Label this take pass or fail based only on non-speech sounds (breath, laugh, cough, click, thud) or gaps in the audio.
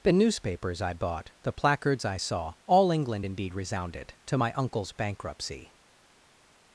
pass